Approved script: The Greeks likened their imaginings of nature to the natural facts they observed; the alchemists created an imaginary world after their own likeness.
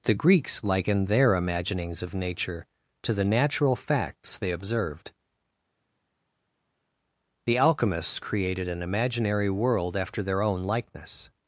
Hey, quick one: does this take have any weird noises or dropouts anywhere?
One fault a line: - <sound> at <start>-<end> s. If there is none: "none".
none